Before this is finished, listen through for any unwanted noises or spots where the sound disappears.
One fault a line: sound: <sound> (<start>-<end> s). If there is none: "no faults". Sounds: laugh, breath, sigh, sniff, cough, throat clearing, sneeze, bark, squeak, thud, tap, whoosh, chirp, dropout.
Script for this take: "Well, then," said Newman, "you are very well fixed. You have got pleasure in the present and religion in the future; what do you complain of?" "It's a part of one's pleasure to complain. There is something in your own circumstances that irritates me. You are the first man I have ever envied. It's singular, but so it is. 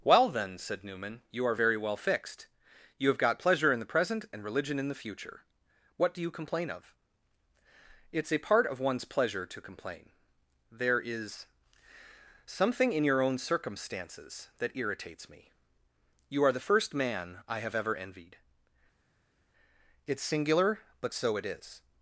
no faults